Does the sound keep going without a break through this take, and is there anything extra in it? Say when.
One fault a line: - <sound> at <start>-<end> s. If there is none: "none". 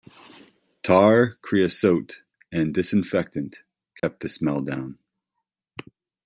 - dropout at 4.0-4.0 s